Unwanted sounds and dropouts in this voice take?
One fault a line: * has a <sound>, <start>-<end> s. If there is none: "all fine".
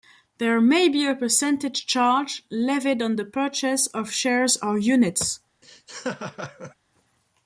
* has a laugh, 5.6-6.8 s